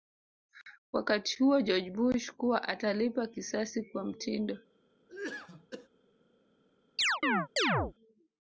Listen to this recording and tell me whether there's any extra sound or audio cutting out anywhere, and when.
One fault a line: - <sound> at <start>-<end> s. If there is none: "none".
- cough at 5.1-5.9 s
- chirp at 7.0-7.9 s